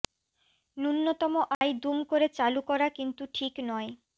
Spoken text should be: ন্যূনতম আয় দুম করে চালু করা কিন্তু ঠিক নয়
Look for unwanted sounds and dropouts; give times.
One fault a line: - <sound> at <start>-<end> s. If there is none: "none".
- dropout at 1.5-1.6 s